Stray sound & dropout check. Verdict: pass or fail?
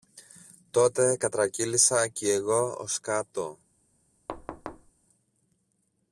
fail